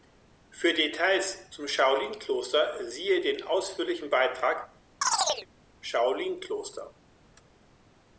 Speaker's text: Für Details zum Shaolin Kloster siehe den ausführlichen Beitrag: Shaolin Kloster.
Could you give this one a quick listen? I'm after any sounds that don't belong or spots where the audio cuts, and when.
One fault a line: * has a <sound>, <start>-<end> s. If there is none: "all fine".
* has a chirp, 5.0-5.5 s